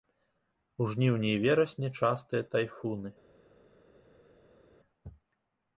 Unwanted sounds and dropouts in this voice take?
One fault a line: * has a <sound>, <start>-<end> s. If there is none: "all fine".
all fine